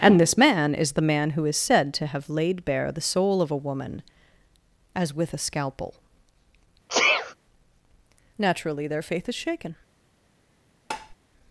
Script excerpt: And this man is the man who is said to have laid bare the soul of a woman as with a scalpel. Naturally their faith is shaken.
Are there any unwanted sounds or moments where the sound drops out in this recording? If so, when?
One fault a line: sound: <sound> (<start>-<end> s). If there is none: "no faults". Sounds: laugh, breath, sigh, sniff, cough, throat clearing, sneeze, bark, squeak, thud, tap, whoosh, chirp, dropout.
sound: sneeze (6.9-7.4 s)
sound: tap (10.9-11.2 s)